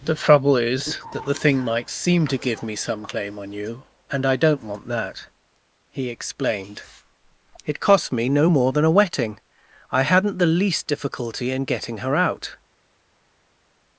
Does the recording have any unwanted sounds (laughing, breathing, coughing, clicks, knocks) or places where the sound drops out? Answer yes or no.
no